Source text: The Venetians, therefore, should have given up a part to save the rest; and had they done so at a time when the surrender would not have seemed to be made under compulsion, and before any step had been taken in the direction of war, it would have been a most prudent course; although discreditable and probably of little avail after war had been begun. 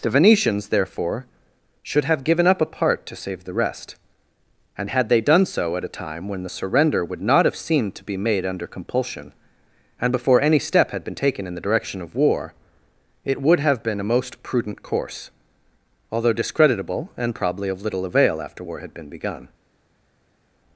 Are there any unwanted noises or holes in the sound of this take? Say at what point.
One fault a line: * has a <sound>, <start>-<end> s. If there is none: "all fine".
all fine